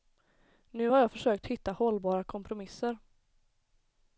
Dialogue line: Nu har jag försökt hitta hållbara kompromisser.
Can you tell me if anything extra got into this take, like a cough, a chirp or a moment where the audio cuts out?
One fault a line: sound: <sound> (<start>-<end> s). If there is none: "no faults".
no faults